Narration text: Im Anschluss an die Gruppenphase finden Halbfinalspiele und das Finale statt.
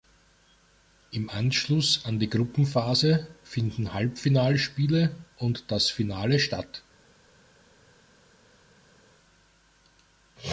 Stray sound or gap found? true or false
false